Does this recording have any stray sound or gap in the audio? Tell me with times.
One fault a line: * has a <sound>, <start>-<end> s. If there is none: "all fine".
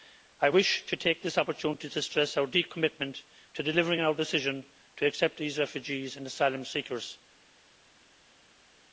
all fine